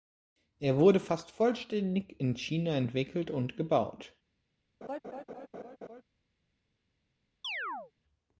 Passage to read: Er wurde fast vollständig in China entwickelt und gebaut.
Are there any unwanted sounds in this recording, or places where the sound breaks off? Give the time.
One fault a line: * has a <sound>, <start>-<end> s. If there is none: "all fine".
* has a laugh, 4.8-6.0 s
* has a chirp, 7.4-7.9 s